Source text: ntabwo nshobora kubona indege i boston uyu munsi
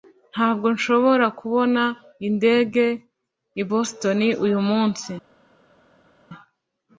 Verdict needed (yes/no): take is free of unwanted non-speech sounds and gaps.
yes